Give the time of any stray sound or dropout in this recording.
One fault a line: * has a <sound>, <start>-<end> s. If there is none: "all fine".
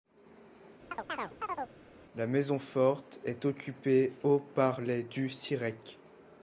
* has a chirp, 0.9-1.8 s